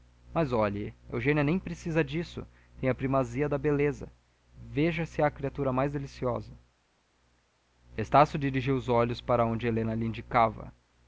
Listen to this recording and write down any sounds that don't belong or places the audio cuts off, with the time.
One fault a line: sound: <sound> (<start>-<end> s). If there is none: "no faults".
no faults